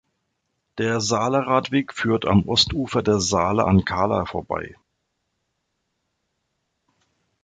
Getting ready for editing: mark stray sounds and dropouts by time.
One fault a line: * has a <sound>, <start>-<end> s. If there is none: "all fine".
all fine